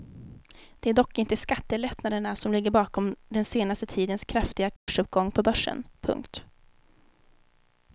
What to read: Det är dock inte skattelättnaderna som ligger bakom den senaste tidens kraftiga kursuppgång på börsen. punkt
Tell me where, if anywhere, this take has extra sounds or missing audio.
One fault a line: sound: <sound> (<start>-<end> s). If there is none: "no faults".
sound: dropout (4.8-4.9 s)